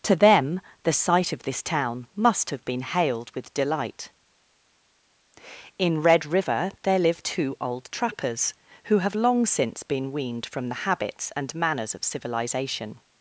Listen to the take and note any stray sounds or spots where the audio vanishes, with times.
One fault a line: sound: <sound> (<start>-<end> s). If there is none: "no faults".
no faults